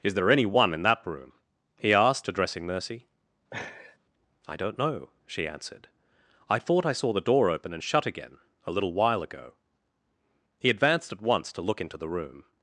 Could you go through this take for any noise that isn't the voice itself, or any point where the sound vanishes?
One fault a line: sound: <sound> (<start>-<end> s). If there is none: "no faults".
sound: laugh (3.5-4.0 s)